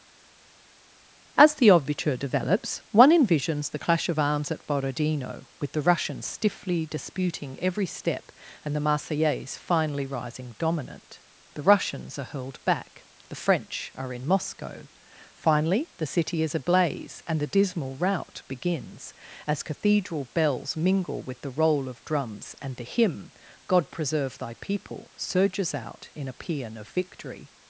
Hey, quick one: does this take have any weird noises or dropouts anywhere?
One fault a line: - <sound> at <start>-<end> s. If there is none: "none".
none